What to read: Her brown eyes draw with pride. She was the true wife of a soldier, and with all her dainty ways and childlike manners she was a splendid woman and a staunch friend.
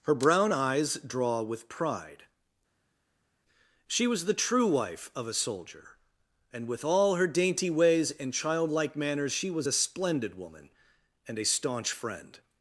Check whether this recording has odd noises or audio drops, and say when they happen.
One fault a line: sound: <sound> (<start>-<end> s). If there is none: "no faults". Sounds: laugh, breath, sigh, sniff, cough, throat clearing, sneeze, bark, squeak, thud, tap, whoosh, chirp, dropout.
no faults